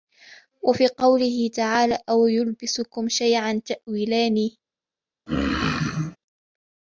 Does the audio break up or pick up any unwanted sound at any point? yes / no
yes